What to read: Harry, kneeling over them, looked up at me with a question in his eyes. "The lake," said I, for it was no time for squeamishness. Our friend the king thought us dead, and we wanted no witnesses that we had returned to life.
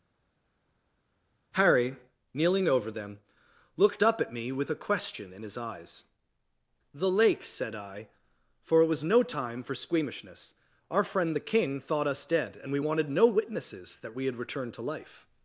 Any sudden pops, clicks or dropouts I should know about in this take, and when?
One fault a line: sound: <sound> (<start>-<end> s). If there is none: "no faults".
no faults